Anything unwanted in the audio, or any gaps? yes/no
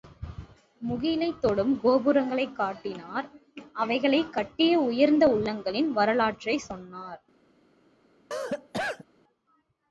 yes